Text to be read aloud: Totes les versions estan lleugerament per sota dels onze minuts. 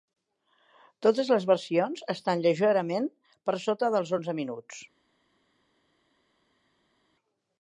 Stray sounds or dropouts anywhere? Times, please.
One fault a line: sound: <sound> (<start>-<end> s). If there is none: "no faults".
no faults